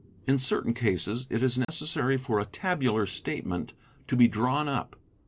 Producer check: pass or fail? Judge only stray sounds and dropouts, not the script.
fail